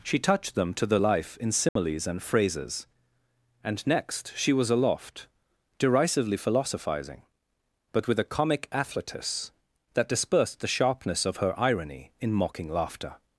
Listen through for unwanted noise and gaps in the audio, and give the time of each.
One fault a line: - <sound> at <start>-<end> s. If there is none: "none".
- dropout at 1.7-1.8 s